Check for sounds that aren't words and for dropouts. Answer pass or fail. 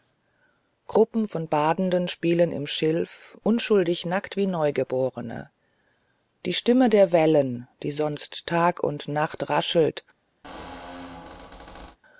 fail